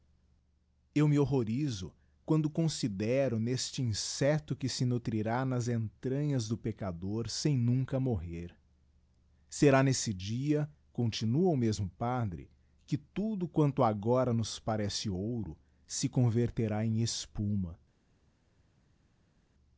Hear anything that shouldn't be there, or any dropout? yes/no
no